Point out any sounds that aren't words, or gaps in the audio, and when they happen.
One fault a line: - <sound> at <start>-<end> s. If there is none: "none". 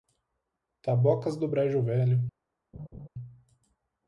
- laugh at 2.7-3.1 s